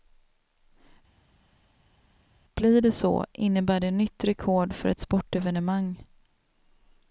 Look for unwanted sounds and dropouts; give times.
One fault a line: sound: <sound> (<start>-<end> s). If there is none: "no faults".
no faults